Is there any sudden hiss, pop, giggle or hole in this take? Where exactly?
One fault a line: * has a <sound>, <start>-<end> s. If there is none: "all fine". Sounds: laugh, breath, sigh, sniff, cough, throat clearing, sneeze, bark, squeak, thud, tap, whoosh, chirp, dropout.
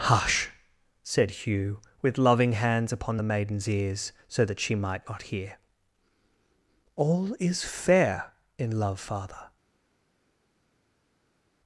all fine